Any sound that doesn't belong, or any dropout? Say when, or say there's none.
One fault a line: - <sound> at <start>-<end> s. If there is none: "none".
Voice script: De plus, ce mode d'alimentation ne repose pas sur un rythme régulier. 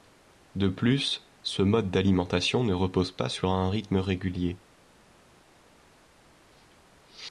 none